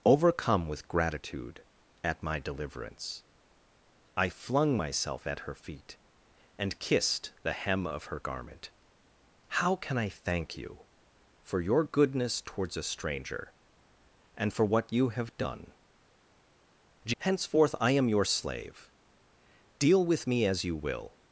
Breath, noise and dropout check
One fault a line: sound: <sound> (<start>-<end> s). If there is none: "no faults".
no faults